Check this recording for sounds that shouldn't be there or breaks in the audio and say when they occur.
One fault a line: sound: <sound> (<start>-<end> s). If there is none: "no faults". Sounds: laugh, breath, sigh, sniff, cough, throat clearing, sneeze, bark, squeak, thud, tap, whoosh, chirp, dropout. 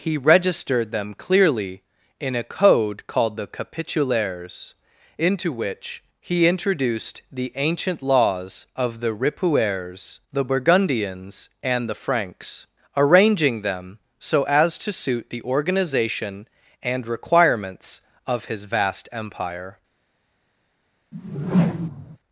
sound: whoosh (21.1-22.2 s)